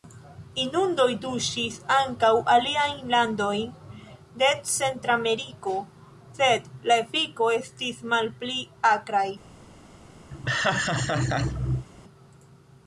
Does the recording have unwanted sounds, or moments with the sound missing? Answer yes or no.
yes